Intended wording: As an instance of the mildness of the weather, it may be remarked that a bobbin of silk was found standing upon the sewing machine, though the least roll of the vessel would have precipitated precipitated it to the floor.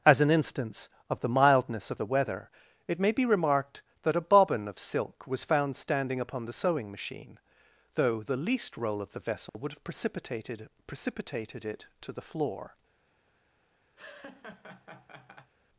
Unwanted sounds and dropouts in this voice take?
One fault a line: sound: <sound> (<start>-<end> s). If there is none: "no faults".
sound: dropout (9.5-9.5 s)
sound: laugh (14.0-15.5 s)